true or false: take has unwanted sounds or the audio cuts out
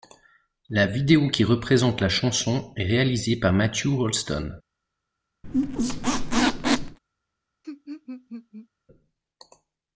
true